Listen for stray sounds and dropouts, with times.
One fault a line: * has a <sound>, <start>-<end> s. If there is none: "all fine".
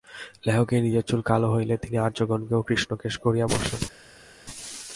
all fine